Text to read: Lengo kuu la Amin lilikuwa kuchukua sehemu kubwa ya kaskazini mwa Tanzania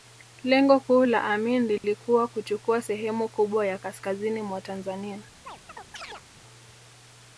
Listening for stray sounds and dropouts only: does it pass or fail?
fail